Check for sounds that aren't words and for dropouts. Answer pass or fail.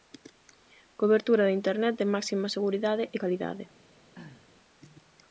fail